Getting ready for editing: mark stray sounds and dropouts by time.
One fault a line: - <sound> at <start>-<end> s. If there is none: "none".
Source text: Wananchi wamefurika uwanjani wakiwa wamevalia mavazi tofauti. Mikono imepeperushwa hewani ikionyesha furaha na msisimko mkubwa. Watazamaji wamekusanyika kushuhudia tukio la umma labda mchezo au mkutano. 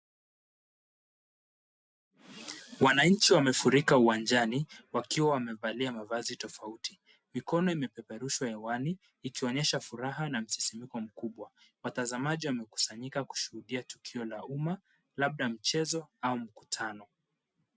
none